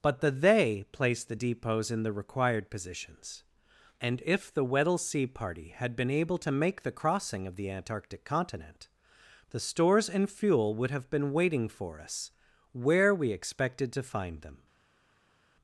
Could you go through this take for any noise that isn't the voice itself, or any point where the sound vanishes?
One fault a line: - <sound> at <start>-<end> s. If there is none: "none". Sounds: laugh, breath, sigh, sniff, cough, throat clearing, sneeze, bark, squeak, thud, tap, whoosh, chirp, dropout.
none